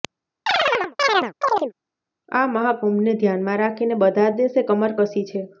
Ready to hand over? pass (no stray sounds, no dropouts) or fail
fail